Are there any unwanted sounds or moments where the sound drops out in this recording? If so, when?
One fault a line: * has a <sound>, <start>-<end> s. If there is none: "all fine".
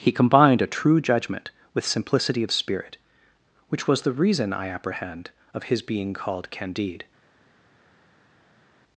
all fine